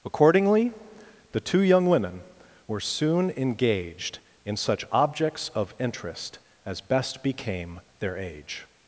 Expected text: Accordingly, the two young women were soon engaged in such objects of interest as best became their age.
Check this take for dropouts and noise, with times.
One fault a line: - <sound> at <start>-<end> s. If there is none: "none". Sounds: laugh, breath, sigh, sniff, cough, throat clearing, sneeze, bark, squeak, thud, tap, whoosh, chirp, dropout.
none